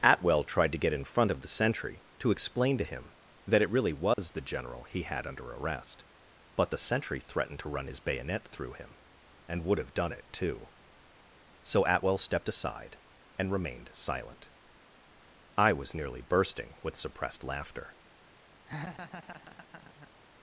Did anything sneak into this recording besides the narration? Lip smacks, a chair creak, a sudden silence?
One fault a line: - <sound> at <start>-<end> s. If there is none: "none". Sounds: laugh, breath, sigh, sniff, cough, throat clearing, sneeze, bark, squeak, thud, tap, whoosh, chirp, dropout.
- dropout at 4.1-4.2 s
- laugh at 18.7-20.1 s